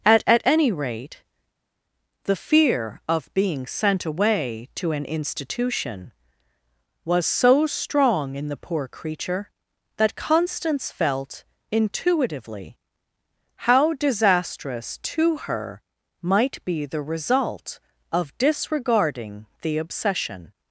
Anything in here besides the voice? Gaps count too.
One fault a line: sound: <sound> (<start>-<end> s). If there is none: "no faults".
no faults